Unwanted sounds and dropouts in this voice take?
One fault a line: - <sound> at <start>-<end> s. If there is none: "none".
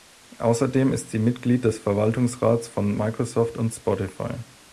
none